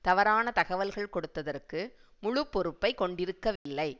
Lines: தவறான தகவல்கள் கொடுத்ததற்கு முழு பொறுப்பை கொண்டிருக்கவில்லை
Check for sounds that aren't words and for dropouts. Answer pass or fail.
fail